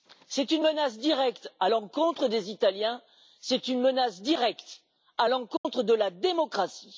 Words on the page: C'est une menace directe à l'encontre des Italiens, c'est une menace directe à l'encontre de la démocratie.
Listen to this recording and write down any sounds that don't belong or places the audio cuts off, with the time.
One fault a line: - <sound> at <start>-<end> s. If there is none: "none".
- dropout at 5.6-5.6 s